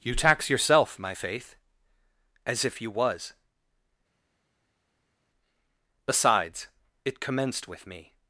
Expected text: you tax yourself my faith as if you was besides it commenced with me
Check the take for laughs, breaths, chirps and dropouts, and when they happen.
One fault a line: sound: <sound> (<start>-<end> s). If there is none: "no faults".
no faults